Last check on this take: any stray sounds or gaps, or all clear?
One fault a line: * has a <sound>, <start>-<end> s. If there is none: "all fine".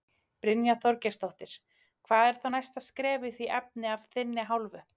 all fine